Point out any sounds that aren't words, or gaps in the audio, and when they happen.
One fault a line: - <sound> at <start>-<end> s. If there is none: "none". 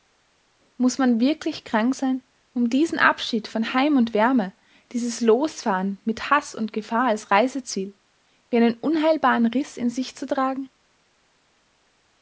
none